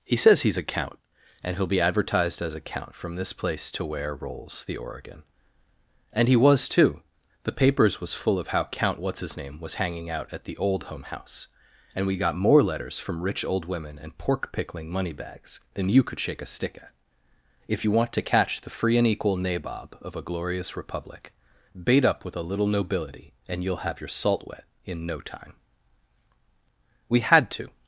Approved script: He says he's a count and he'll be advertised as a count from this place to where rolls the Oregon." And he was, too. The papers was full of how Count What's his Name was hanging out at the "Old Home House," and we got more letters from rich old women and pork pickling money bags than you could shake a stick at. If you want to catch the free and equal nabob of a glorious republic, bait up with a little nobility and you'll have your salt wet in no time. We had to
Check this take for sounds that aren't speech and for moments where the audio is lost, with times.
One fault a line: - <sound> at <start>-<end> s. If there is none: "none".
none